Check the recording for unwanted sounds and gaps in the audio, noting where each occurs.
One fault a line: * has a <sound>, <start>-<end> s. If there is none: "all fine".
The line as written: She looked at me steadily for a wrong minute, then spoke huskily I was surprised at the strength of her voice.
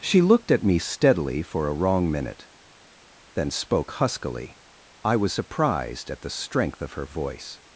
all fine